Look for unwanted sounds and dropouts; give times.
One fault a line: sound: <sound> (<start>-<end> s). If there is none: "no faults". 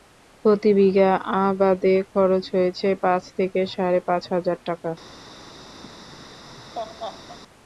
sound: laugh (5.8-7.4 s)